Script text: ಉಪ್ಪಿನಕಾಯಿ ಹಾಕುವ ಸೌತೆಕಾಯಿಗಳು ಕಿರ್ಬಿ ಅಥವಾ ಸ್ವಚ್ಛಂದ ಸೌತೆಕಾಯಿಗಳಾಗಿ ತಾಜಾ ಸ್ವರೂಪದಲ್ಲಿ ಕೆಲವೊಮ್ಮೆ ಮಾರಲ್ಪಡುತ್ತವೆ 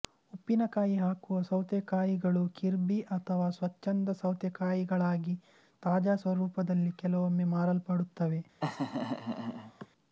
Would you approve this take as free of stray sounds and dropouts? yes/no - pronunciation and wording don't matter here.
no